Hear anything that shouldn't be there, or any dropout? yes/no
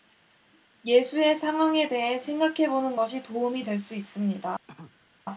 yes